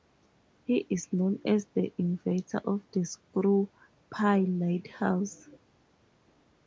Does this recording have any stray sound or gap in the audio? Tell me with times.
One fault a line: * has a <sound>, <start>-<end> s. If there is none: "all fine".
all fine